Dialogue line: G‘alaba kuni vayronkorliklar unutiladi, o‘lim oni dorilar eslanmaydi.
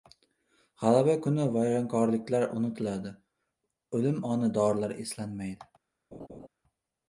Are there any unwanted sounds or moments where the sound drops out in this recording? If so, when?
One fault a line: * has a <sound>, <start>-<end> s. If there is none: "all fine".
* has a laugh, 6.1-6.5 s